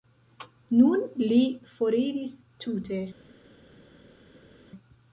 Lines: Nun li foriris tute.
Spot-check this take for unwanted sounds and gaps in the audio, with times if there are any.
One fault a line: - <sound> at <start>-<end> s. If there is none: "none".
none